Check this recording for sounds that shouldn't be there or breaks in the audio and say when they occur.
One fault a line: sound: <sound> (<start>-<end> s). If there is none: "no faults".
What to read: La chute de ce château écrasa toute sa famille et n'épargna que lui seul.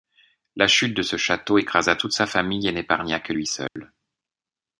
sound: dropout (3.7-3.8 s)